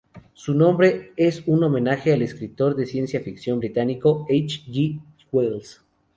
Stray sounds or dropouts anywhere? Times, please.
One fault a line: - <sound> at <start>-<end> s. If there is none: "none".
none